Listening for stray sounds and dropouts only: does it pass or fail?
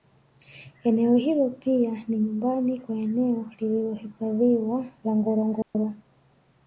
fail